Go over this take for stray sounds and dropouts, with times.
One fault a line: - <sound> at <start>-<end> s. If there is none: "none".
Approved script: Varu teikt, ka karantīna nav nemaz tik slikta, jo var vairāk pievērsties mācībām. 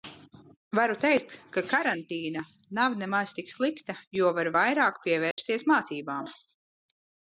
- dropout at 5.3-5.4 s